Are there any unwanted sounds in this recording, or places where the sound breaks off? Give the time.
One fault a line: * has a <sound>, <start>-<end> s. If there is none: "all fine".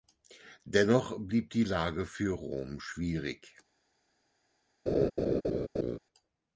* has a laugh, 4.9-6.0 s